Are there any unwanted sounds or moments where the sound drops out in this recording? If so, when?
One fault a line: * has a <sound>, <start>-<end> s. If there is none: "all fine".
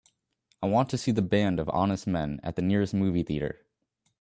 all fine